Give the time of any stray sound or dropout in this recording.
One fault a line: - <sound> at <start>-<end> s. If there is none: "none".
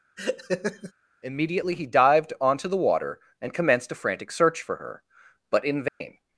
- laugh at 0.2-0.9 s
- dropout at 5.9-6.0 s